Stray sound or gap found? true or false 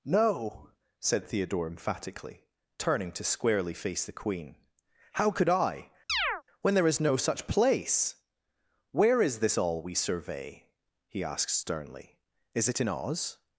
true